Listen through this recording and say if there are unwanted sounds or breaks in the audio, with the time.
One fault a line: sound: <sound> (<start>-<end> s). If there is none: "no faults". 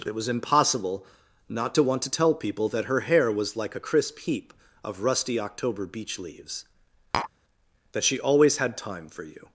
sound: tap (7.1-7.3 s)